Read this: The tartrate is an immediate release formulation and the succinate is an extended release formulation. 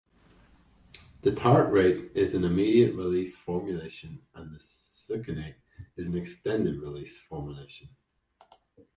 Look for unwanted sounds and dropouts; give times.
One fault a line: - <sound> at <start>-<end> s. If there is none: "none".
none